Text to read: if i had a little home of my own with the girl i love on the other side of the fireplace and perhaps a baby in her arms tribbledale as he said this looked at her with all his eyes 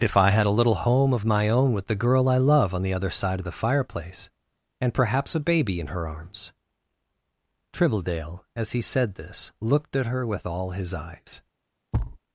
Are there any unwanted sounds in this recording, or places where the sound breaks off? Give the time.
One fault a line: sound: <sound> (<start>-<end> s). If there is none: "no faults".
sound: thud (11.9-12.2 s)